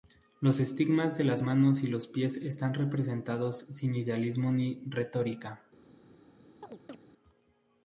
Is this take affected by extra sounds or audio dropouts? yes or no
yes